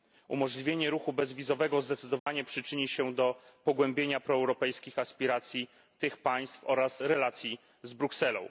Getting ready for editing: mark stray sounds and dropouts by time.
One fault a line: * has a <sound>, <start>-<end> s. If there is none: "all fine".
* has a dropout, 2.2-2.3 s